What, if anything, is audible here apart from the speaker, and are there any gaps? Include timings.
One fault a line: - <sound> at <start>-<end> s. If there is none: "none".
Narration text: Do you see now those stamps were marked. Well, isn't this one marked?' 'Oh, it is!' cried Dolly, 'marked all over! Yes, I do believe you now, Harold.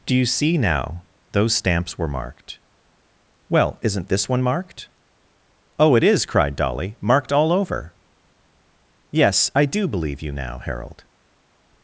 none